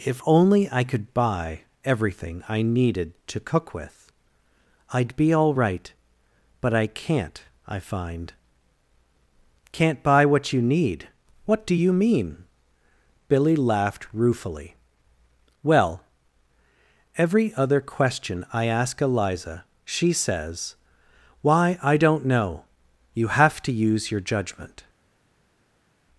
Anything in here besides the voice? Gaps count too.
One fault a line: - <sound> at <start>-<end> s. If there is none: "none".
none